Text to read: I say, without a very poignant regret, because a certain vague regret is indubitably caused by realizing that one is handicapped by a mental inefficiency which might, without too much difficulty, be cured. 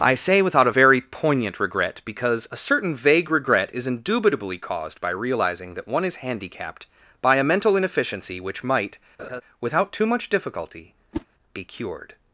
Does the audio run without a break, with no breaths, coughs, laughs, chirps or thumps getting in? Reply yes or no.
no